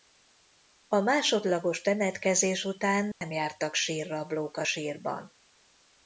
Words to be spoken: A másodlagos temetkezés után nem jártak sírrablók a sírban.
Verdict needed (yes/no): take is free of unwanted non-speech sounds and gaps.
no